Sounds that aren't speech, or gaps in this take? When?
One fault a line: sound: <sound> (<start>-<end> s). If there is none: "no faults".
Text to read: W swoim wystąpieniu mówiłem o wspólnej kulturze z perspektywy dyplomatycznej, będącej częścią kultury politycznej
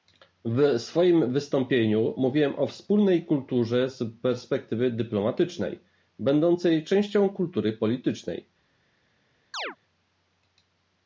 sound: chirp (9.5-9.8 s)